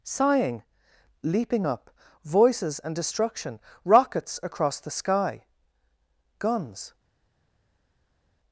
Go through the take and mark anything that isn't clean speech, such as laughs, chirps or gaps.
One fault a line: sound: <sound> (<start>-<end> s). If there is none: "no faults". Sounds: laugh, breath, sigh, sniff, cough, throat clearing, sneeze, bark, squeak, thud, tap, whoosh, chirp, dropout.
no faults